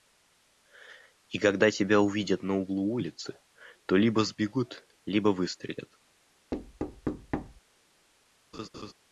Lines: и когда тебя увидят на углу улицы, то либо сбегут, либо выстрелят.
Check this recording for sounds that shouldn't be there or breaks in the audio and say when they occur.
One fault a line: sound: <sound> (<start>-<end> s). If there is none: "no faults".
sound: thud (6.5-7.6 s)
sound: laugh (8.5-8.9 s)